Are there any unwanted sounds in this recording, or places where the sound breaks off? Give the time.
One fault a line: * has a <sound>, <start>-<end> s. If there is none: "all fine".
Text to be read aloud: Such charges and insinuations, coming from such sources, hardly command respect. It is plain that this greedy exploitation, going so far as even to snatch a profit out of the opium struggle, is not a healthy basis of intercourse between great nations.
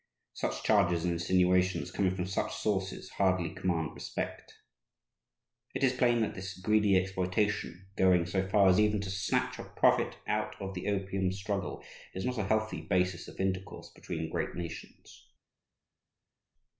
all fine